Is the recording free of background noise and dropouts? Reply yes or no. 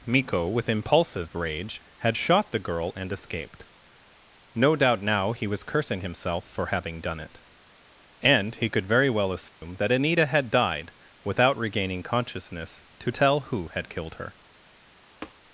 no